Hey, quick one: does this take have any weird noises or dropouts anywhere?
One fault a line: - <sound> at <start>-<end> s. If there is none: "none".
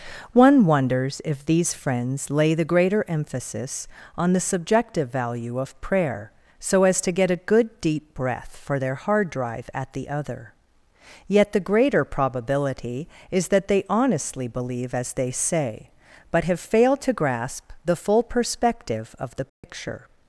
- dropout at 19.5-19.6 s